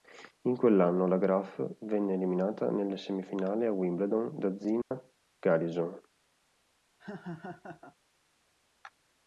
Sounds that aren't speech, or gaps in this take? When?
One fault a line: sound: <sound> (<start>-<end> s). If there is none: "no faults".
sound: dropout (4.8-4.9 s)
sound: laugh (7.0-8.0 s)